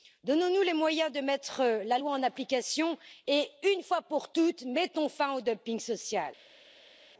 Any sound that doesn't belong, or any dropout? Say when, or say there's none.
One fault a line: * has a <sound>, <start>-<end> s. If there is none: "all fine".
all fine